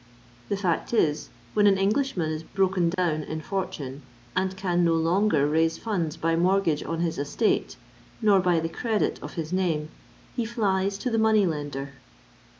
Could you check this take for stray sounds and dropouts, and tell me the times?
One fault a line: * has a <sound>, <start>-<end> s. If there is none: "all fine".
* has a dropout, 2.9-3.0 s